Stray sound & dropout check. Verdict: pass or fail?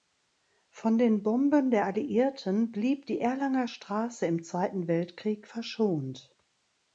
pass